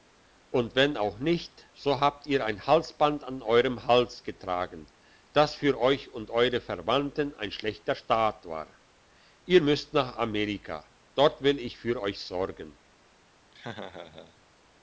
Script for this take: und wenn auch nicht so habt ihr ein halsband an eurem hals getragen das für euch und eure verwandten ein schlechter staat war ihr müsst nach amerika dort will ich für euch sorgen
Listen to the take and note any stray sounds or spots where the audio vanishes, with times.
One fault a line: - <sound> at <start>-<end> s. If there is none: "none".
- laugh at 13.5-14.4 s